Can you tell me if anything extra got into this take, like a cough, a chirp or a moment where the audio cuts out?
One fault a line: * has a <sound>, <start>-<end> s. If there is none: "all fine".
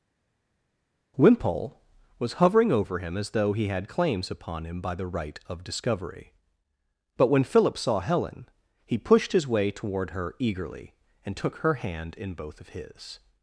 all fine